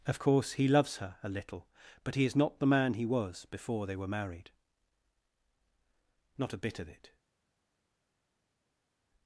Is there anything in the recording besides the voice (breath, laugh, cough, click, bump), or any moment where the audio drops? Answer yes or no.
no